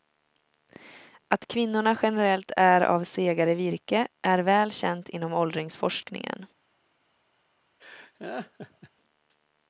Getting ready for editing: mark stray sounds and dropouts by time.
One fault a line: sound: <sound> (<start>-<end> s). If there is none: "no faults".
sound: laugh (7.8-8.9 s)